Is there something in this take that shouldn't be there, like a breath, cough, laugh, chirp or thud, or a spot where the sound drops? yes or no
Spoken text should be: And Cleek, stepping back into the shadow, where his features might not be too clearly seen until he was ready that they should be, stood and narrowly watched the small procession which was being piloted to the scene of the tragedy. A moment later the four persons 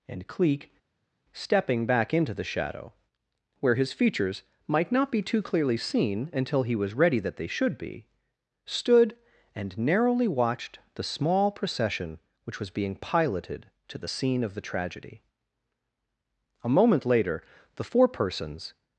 no